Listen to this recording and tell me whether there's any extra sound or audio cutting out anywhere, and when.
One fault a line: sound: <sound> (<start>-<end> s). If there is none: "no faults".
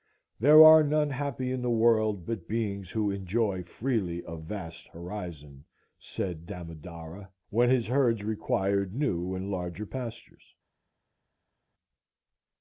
no faults